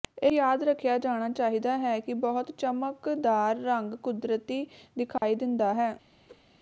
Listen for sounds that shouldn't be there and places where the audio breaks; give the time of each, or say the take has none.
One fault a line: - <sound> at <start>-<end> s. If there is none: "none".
- dropout at 5.2-5.2 s
- whoosh at 6.3-6.4 s